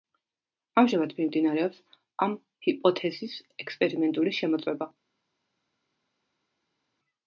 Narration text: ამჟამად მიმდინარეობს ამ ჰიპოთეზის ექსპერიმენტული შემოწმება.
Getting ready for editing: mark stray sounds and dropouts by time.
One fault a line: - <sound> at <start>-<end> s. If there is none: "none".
none